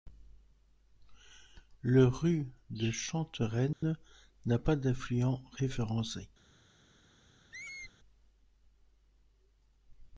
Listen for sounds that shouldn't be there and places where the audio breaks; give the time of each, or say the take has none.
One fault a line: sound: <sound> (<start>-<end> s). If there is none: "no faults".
sound: dropout (3.7-3.8 s)
sound: squeak (7.5-7.9 s)